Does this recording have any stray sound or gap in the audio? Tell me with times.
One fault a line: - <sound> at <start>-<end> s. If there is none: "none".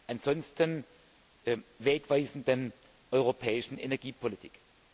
none